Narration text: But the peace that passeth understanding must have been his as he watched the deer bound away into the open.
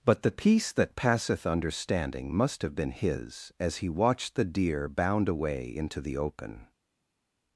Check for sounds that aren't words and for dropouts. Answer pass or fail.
pass